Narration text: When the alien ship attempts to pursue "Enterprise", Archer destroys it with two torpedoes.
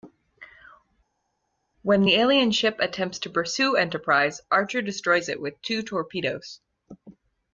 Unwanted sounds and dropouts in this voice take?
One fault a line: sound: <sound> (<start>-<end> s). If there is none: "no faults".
no faults